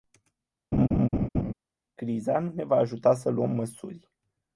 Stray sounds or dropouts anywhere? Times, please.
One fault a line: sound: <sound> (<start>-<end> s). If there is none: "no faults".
sound: laugh (0.7-1.5 s)